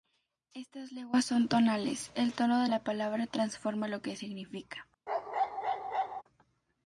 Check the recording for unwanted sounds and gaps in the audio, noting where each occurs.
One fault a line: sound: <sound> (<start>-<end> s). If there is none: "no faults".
sound: bark (5.1-6.2 s)